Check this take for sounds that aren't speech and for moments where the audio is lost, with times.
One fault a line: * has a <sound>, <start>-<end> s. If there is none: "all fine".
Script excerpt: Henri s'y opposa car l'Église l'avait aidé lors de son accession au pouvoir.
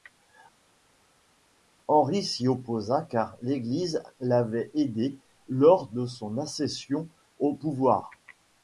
all fine